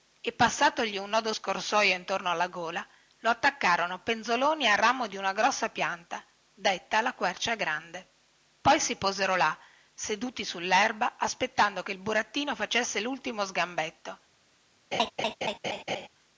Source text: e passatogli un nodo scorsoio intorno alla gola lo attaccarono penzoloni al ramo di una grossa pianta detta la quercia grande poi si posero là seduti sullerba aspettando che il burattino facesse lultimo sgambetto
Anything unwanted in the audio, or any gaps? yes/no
yes